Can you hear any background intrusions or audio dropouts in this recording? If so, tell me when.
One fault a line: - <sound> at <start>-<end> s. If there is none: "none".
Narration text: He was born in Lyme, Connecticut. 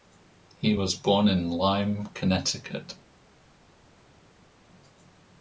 none